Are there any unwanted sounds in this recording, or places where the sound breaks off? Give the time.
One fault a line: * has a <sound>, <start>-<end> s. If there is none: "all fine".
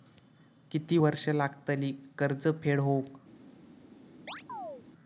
* has a chirp, 4.3-4.8 s